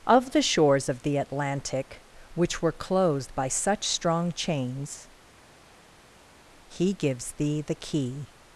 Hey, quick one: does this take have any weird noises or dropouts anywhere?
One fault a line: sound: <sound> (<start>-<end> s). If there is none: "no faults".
no faults